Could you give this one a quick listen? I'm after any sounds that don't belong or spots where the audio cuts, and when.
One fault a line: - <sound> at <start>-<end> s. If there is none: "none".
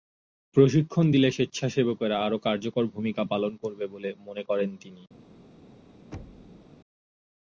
- thud at 6.1-6.7 s